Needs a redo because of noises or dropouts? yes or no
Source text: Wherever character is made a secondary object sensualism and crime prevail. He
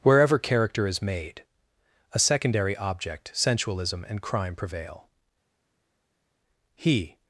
no